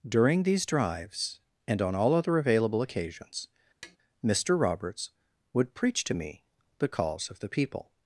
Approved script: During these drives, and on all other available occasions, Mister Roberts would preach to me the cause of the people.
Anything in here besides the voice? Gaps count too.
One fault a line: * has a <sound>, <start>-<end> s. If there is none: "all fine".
* has a tap, 3.8-4.0 s